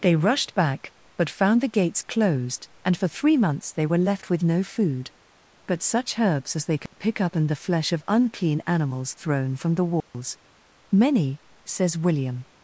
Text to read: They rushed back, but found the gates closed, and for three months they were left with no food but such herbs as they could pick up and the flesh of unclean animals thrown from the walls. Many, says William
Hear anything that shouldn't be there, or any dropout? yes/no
yes